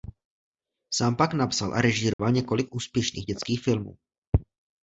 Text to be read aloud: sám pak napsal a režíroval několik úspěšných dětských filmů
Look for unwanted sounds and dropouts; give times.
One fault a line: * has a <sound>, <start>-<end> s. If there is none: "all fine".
* has a dropout, 2.1-2.2 s